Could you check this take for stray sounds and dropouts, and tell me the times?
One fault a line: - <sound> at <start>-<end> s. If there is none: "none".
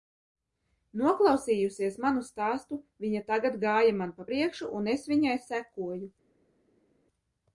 none